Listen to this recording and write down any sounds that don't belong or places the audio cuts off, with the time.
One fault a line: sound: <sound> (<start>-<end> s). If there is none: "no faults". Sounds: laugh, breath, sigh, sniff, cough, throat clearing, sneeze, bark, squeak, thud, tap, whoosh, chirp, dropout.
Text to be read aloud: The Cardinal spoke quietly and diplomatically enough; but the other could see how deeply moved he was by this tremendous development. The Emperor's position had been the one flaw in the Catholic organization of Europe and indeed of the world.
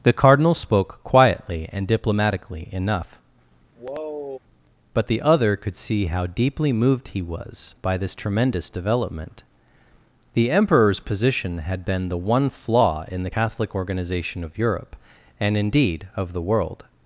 sound: sigh (3.8-4.4 s)